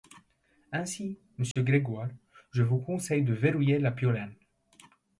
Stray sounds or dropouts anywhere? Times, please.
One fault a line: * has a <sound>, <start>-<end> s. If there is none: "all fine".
* has a dropout, 1.5-1.6 s